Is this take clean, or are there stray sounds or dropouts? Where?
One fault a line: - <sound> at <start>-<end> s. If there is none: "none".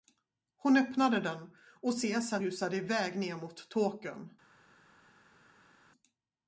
none